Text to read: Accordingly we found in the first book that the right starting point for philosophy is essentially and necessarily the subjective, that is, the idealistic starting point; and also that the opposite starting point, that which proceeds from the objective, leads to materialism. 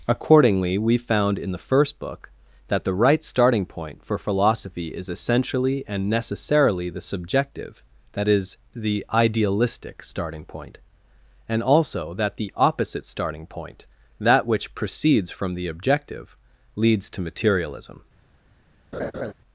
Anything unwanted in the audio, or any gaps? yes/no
yes